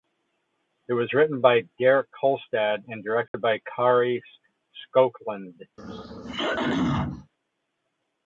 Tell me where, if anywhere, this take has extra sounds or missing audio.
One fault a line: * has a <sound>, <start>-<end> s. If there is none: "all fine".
* has a dropout, 3.3-3.3 s
* has a throat clearing, 5.8-7.3 s